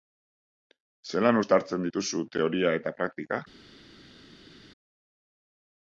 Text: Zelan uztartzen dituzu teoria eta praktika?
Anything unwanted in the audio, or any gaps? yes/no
no